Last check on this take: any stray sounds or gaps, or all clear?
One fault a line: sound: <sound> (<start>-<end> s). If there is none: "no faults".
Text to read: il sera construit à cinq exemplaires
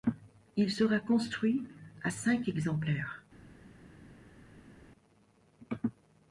no faults